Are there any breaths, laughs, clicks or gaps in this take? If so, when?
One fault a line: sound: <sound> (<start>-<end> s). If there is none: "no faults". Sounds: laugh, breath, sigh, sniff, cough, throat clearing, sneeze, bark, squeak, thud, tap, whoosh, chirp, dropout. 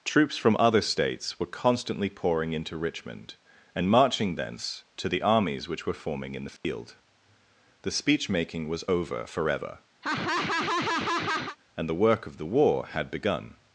sound: dropout (6.6-6.6 s)
sound: laugh (10.0-11.6 s)